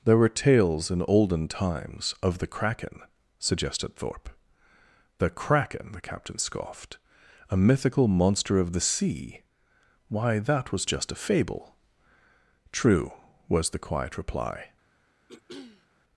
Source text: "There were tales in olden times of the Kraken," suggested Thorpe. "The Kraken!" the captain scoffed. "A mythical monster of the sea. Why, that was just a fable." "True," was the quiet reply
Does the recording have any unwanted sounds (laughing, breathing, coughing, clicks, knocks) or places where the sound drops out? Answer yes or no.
yes